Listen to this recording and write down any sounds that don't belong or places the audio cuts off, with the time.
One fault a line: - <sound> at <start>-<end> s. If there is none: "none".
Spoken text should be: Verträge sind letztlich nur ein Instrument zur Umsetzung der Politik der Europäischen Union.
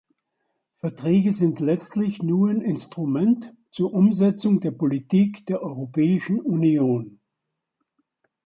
none